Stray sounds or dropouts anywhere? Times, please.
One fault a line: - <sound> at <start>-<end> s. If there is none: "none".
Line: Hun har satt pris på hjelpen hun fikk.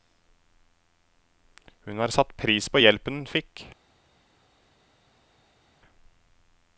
none